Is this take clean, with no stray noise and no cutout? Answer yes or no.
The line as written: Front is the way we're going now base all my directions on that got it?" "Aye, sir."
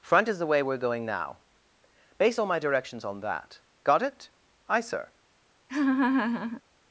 no